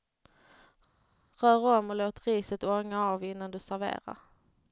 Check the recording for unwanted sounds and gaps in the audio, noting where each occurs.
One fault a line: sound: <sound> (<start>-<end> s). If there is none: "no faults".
no faults